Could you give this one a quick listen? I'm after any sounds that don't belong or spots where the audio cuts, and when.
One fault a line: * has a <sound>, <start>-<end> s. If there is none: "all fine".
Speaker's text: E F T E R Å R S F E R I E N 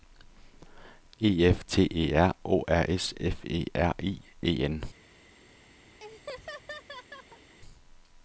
* has a laugh, 6.0-7.6 s